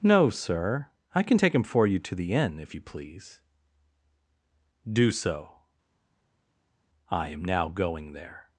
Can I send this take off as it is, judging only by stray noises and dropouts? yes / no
yes